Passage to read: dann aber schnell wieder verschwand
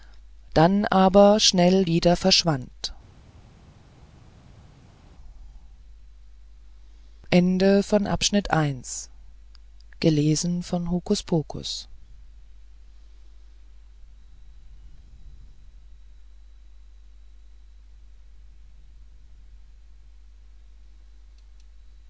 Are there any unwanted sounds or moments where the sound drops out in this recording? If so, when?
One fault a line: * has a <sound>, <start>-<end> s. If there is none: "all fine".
all fine